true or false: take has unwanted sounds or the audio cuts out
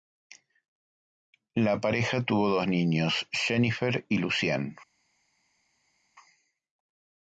false